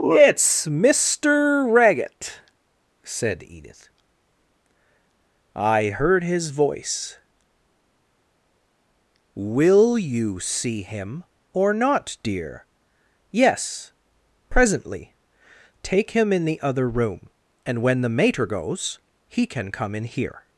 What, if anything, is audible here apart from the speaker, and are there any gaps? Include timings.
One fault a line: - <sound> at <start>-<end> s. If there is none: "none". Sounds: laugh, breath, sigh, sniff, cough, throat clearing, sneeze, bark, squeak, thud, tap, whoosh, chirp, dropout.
none